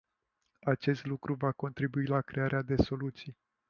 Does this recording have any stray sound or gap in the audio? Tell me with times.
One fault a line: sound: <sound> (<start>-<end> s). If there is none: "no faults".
no faults